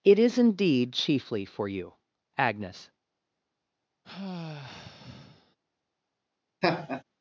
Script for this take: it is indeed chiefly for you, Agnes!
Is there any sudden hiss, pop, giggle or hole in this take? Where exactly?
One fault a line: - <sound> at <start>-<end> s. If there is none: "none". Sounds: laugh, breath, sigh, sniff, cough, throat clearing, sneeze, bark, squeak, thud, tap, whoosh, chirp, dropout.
- sigh at 4.0-5.6 s
- laugh at 6.6-7.0 s